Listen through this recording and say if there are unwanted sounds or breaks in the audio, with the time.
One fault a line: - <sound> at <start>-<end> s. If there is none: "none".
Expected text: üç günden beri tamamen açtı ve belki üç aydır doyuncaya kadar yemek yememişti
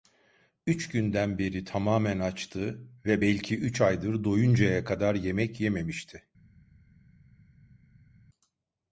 none